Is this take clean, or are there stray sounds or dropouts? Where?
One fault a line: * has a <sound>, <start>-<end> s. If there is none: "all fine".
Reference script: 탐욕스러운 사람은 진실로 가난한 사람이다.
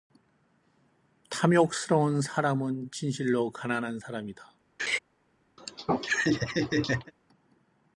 * has a laugh, 4.8-5.0 s
* has a laugh, 5.6-7.1 s